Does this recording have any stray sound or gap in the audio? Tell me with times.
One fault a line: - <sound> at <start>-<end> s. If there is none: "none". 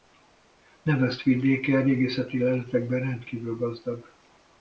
none